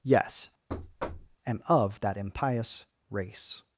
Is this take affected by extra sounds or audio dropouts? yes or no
yes